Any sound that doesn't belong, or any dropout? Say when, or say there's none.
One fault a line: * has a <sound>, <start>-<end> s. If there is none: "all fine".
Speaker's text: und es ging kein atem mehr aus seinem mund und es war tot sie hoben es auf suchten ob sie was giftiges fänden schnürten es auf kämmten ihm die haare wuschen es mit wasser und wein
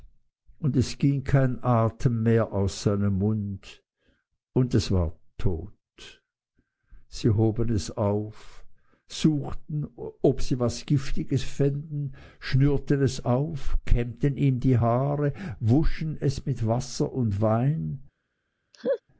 * has a laugh, 18.7-19.0 s